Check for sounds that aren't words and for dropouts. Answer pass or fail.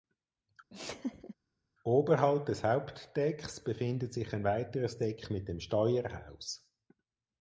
fail